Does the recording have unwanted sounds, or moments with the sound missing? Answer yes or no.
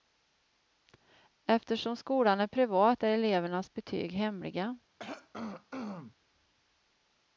yes